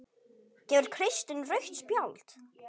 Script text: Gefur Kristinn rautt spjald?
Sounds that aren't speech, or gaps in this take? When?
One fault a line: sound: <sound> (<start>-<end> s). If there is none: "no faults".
no faults